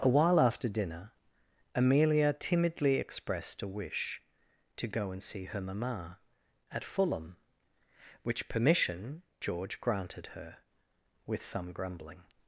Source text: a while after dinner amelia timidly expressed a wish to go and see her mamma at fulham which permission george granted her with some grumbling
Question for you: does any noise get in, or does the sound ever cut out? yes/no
no